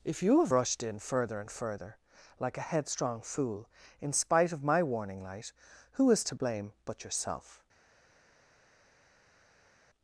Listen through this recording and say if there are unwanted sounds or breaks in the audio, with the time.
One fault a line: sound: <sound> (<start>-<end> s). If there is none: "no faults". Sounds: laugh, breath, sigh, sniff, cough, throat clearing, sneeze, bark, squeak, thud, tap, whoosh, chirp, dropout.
no faults